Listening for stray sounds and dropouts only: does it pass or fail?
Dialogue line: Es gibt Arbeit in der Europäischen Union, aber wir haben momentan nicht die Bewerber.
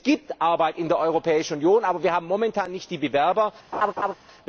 fail